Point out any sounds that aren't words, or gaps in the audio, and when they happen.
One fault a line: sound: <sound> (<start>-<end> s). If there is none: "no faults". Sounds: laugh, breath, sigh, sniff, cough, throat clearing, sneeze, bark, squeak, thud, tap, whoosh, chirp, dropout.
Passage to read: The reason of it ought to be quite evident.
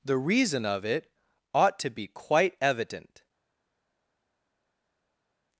no faults